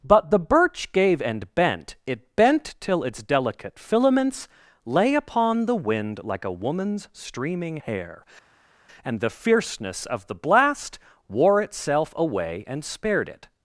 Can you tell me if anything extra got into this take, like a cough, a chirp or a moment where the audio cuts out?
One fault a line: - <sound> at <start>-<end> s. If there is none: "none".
none